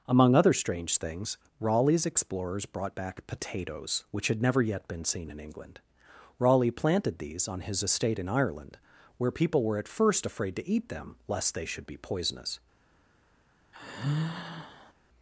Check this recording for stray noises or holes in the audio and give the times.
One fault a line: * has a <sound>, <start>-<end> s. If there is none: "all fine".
* has a sigh, 13.7-14.9 s